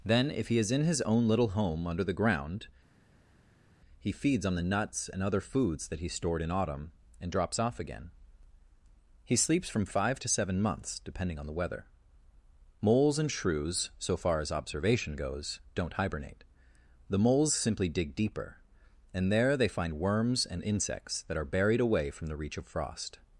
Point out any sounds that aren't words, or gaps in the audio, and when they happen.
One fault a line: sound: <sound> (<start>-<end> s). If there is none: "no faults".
no faults